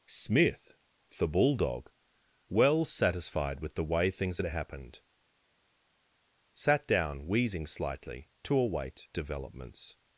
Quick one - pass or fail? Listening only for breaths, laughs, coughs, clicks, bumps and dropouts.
pass